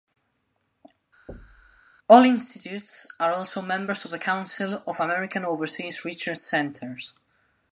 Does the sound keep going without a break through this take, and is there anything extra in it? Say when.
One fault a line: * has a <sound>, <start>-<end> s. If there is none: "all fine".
* has a thud, 1.3-1.8 s